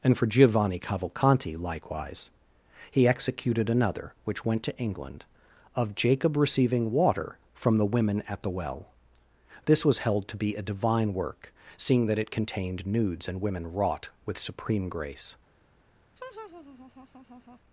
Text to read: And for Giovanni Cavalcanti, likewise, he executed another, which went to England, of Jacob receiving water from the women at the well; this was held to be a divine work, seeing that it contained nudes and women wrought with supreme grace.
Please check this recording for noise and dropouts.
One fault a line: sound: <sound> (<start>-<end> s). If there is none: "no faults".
sound: laugh (16.2-17.6 s)